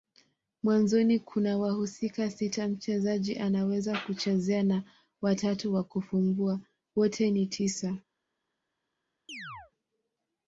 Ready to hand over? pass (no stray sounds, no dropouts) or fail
fail